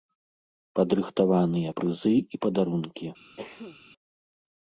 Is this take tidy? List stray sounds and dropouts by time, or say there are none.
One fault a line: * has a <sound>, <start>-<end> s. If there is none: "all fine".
* has a cough, 3.4-3.8 s